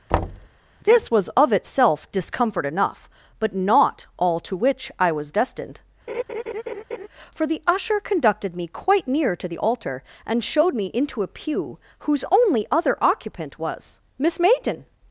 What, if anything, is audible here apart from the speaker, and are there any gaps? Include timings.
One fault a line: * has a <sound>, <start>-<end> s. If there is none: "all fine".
* has a thud, 0.1-0.5 s
* has a laugh, 6.1-7.1 s